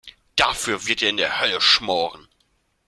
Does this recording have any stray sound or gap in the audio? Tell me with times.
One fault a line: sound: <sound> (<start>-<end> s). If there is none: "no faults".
no faults